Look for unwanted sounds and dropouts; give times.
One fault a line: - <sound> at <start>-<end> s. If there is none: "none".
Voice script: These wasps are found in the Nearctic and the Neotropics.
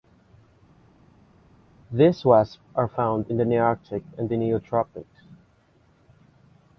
none